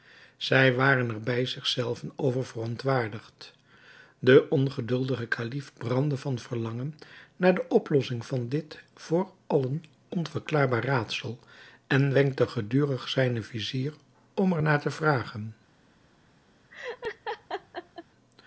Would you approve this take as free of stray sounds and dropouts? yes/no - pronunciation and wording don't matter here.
no